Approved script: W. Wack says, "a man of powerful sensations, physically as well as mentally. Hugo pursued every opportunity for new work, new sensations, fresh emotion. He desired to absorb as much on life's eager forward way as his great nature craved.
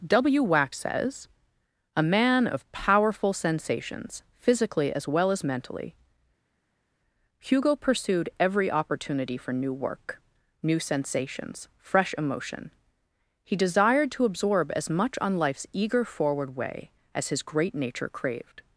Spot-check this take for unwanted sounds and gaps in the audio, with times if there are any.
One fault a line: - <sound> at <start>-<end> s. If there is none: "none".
none